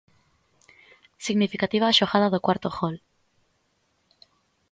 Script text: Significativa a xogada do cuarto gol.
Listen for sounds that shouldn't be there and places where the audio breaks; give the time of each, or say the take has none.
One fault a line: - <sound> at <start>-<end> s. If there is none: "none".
none